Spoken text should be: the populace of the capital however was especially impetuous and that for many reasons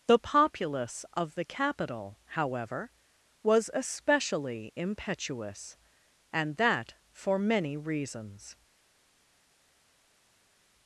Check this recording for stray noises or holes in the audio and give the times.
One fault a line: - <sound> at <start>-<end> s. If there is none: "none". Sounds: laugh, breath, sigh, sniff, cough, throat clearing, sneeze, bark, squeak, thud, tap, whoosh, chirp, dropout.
none